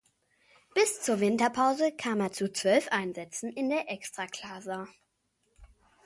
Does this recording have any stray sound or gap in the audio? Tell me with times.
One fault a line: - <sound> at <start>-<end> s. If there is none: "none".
none